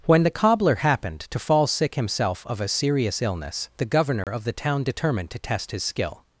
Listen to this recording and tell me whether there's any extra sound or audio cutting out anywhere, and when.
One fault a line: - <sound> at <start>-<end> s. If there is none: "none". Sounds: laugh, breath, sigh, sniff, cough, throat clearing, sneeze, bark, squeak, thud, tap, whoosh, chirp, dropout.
- dropout at 4.2-4.3 s